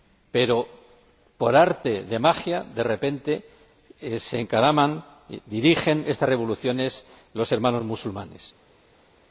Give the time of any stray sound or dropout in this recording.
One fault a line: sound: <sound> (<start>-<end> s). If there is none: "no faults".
no faults